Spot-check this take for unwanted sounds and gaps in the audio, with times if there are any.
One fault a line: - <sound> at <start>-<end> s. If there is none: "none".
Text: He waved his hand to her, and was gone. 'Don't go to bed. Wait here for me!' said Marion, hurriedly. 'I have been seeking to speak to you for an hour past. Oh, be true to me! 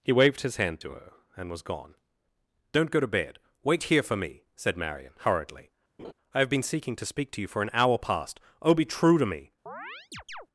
- laugh at 6.0-6.1 s
- chirp at 9.7-10.5 s